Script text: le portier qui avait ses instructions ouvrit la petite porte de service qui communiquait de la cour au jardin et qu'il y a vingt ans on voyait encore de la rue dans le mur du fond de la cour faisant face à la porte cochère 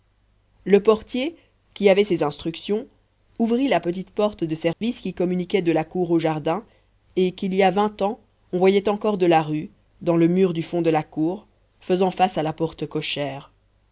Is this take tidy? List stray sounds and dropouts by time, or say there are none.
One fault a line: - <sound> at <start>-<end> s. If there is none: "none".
- dropout at 4.7-4.8 s